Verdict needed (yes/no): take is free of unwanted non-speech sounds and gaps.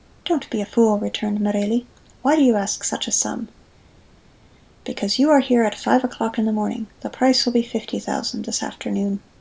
yes